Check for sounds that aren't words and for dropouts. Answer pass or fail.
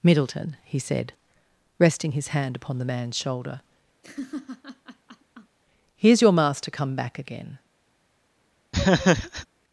fail